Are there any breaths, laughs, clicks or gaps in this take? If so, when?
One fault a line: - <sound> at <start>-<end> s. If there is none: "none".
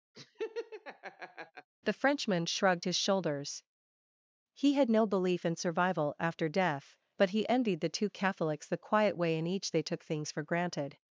- laugh at 0.1-1.7 s